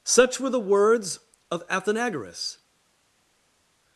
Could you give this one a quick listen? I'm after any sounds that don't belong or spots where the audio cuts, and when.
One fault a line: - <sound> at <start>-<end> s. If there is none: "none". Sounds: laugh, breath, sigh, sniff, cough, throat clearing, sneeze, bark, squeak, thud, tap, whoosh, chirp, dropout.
none